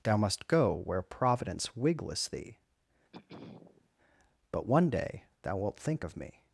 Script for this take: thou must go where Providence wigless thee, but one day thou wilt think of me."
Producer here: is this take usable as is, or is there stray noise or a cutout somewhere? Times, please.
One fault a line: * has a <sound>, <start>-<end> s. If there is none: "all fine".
* has a throat clearing, 3.1-3.9 s